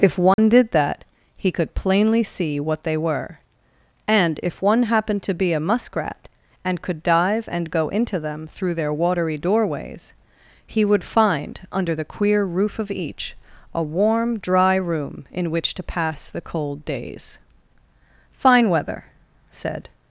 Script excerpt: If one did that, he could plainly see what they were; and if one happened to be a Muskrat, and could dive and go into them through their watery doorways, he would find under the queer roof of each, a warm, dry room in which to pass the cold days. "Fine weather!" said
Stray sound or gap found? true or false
true